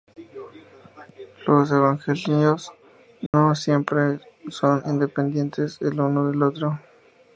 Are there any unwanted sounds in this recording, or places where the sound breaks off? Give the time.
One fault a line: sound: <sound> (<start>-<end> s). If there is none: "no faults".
sound: dropout (3.3-3.3 s)